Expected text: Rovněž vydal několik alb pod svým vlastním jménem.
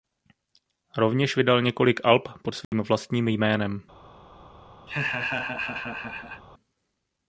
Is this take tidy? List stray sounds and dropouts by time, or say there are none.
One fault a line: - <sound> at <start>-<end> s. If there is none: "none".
- dropout at 2.6-2.7 s
- laugh at 4.9-6.4 s